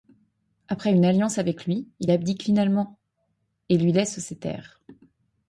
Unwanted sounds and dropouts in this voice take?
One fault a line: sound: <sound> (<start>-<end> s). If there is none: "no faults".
no faults